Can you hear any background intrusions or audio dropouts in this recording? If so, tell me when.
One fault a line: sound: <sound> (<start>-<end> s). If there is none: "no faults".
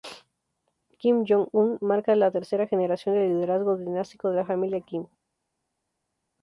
no faults